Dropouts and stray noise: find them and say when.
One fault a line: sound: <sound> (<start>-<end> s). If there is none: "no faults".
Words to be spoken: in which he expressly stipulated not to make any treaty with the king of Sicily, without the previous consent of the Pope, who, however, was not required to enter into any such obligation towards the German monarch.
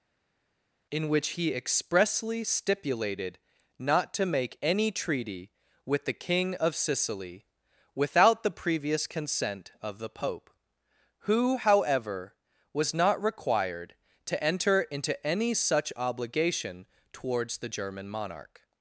no faults